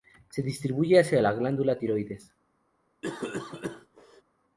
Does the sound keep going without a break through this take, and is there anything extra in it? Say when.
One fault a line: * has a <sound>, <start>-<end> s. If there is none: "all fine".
* has a cough, 3.0-4.2 s